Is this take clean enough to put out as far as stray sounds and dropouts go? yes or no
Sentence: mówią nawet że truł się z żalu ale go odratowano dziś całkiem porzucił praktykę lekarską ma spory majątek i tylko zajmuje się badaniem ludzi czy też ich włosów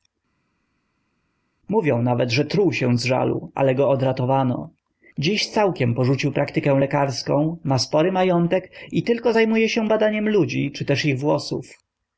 yes